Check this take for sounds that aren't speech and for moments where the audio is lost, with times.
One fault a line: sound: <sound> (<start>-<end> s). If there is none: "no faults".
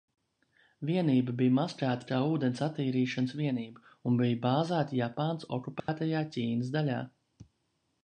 sound: dropout (5.8-5.9 s)